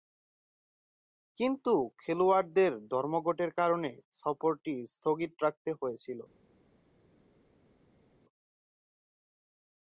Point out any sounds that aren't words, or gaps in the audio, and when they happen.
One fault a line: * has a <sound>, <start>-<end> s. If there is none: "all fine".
all fine